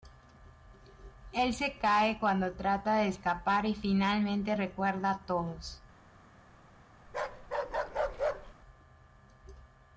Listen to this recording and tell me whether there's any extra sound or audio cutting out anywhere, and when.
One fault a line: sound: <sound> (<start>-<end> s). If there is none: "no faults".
sound: bark (7.1-8.6 s)